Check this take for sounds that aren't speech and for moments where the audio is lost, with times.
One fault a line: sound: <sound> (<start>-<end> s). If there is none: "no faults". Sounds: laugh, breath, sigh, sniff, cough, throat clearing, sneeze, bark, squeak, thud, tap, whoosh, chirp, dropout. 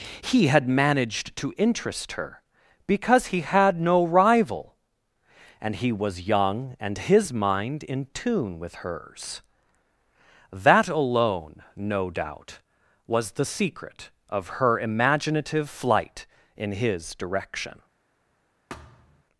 sound: thud (18.7-19.2 s)